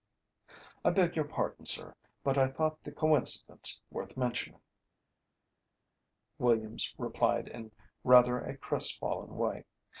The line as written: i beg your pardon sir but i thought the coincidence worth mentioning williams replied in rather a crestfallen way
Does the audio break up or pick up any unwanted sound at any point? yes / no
no